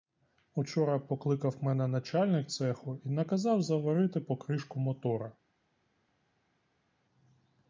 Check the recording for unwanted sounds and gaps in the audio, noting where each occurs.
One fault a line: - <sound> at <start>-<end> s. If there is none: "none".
none